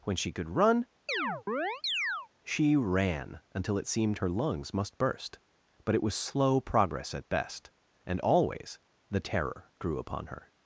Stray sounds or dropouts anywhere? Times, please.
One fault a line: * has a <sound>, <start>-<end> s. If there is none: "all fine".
* has a chirp, 1.1-2.3 s